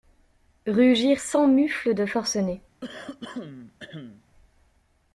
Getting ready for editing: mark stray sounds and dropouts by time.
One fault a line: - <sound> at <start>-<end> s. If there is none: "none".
- throat clearing at 2.8-4.2 s